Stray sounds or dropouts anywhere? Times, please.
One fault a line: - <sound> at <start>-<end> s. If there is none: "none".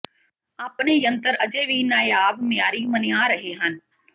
none